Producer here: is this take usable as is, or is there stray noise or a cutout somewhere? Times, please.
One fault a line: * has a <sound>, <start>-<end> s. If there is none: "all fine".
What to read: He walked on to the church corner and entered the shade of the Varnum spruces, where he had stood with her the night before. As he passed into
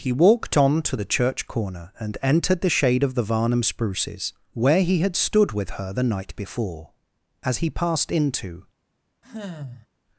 * has a sigh, 9.2-9.9 s